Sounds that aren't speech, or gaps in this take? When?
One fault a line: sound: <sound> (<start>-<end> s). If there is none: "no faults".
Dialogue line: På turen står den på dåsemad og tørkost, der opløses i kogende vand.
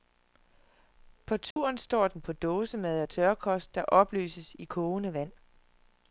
sound: dropout (1.5-1.6 s)